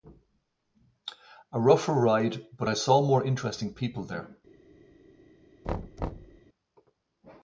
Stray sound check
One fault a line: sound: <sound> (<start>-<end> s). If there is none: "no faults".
sound: thud (5.6-6.4 s)